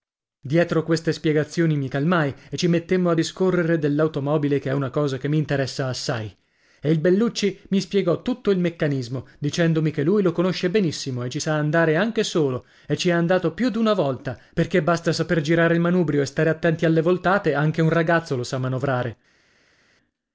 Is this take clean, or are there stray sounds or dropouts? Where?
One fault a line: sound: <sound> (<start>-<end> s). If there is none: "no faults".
no faults